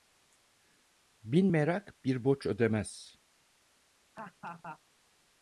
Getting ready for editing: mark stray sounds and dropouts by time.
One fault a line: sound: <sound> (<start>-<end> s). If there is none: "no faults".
sound: laugh (4.1-4.8 s)